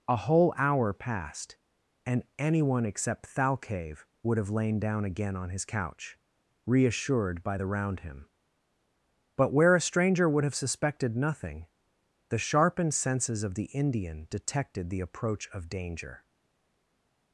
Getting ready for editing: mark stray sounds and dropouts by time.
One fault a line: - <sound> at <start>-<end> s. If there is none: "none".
none